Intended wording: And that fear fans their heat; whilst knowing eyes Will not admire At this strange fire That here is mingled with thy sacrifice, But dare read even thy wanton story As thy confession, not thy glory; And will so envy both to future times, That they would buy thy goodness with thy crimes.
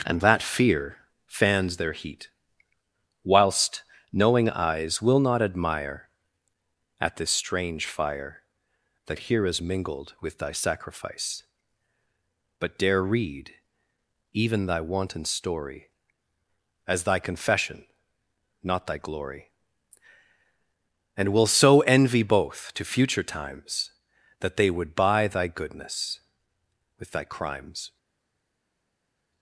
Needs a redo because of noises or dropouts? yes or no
no